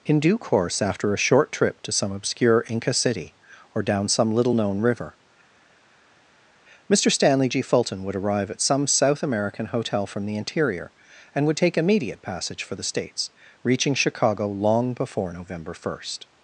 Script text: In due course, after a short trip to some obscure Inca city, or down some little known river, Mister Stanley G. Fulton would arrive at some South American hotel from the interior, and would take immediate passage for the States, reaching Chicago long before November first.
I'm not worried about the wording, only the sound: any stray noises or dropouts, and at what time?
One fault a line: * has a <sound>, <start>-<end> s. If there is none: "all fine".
all fine